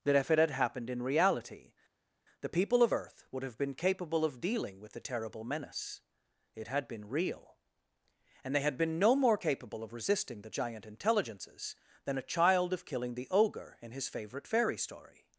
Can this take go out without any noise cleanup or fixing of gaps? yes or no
yes